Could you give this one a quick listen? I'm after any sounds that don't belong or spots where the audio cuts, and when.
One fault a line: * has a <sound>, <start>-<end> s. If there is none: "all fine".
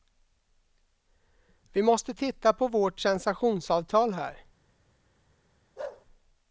* has a bark, 5.8-6.1 s